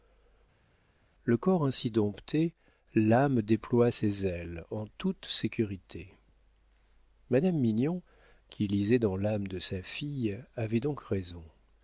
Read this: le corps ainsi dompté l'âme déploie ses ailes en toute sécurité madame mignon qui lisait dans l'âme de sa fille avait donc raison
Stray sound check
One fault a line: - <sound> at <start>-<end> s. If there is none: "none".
none